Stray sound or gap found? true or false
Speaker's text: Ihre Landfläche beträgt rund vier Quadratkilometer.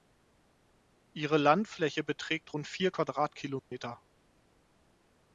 true